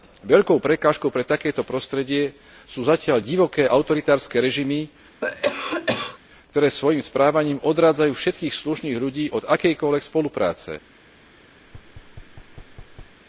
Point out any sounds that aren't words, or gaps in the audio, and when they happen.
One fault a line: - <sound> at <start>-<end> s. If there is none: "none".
- cough at 5.2-6.2 s
- thud at 11.6-13.2 s